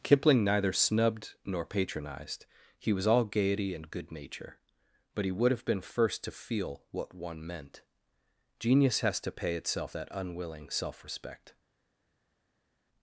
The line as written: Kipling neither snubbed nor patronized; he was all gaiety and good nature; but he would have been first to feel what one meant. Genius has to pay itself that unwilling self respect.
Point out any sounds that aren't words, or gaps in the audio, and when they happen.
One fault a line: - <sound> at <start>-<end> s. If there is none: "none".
none